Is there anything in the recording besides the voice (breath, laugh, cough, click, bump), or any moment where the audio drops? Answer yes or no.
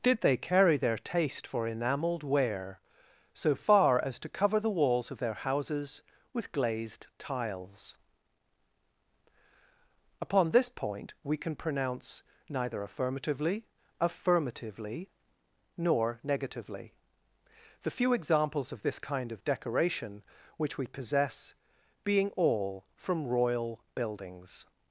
no